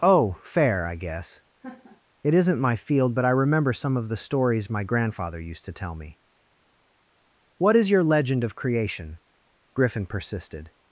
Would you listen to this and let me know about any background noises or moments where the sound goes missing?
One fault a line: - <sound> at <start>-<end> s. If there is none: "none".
- laugh at 1.6-2.0 s